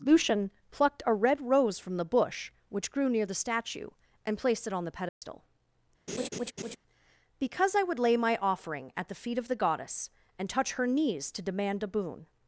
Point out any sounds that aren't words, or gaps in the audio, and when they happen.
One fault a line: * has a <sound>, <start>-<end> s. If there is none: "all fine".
* has a dropout, 5.1-5.2 s
* has a laugh, 6.1-6.8 s